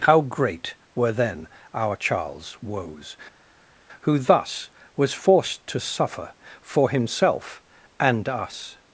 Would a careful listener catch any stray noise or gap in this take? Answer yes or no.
no